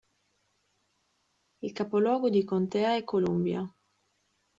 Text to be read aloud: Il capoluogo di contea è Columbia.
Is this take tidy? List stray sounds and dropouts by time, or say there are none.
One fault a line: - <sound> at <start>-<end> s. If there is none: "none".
none